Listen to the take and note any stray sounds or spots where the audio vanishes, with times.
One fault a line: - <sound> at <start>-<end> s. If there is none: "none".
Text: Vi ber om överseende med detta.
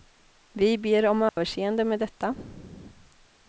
- dropout at 1.3-1.4 s